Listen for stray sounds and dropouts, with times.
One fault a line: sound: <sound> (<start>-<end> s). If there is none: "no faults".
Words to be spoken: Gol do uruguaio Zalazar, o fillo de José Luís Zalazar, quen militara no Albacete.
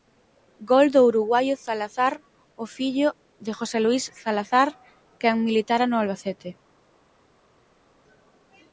no faults